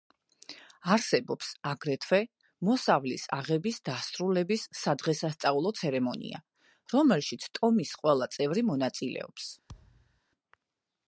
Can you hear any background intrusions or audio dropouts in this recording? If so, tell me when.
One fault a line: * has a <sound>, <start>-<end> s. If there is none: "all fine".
* has a thud, 9.7-10.2 s